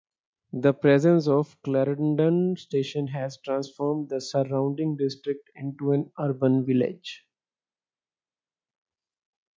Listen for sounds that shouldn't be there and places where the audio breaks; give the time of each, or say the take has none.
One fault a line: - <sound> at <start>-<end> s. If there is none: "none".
none